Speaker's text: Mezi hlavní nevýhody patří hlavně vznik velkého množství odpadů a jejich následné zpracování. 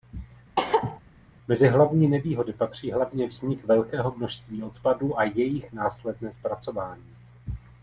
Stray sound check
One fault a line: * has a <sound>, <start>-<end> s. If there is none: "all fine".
* has a cough, 0.6-1.0 s